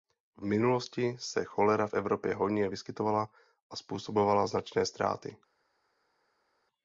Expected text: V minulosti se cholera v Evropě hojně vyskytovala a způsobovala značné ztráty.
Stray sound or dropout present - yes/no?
no